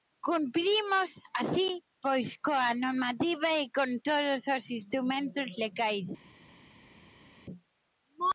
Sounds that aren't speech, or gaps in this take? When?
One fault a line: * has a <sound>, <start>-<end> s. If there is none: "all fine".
all fine